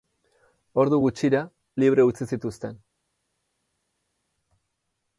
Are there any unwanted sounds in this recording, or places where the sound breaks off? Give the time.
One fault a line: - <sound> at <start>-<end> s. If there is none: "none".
none